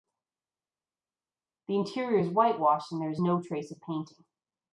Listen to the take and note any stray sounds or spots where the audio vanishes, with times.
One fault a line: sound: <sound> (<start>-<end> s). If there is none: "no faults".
no faults